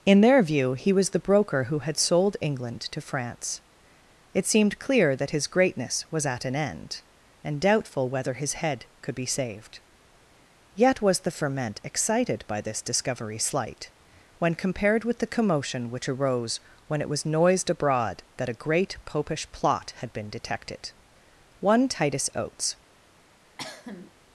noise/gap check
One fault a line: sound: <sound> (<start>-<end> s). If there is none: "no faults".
sound: cough (23.6-24.1 s)